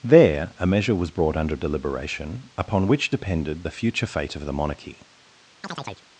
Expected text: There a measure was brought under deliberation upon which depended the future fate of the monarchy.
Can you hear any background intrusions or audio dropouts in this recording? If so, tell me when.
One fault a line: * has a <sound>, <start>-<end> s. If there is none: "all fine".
* has a chirp, 5.6-6.1 s